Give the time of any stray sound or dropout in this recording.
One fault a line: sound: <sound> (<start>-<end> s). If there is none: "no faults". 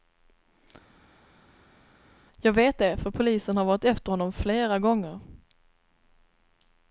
no faults